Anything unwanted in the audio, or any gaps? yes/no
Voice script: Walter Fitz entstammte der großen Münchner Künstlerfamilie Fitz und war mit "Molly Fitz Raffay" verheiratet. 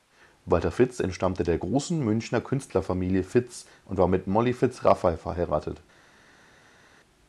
no